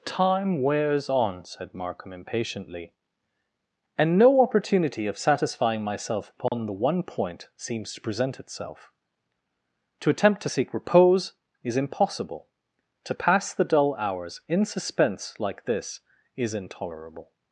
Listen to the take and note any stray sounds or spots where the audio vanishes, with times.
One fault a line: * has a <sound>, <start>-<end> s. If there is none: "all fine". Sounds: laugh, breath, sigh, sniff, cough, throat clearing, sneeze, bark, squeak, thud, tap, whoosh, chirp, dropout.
* has a dropout, 6.5-6.5 s